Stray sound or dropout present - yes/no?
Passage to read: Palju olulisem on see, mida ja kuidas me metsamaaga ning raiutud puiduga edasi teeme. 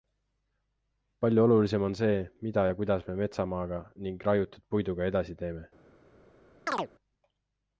yes